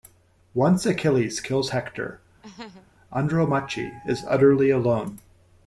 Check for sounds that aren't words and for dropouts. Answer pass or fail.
fail